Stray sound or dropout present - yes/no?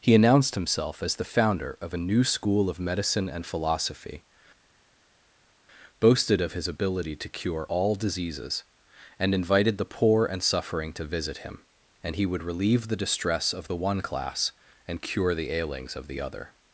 no